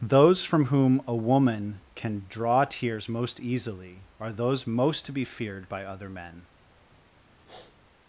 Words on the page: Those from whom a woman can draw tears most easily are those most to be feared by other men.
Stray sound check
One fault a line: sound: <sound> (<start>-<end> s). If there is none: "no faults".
sound: sniff (7.4-7.8 s)